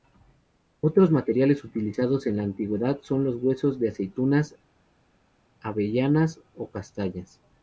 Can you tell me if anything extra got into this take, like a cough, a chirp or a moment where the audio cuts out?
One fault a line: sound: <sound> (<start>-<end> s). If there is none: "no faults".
no faults